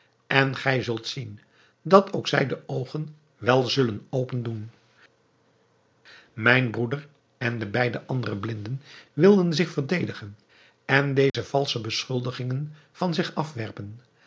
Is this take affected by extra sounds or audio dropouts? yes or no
yes